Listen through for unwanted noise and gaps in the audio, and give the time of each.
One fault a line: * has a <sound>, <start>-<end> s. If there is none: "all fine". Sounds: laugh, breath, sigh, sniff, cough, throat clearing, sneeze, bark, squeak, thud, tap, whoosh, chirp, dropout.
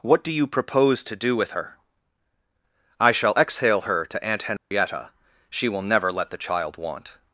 * has a dropout, 4.6-4.7 s